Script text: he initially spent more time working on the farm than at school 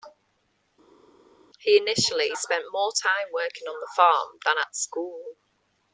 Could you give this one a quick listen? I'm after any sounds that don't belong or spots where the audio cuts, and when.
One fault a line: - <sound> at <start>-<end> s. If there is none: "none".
none